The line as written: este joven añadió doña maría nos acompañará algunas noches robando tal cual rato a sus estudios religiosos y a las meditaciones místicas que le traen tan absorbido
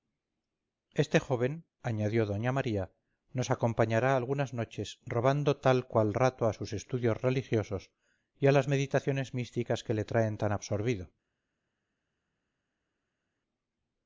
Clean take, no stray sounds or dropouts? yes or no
yes